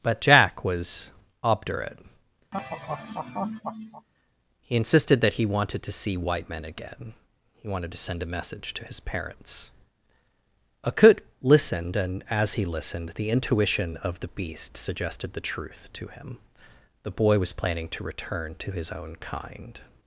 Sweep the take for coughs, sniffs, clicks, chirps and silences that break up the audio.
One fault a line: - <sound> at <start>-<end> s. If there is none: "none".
- laugh at 2.5-4.1 s